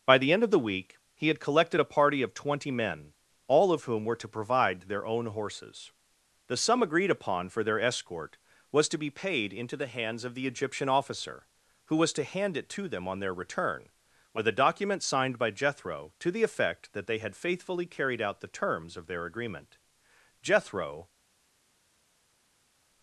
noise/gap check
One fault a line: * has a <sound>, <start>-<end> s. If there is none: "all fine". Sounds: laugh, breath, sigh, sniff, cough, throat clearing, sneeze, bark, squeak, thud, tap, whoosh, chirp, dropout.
all fine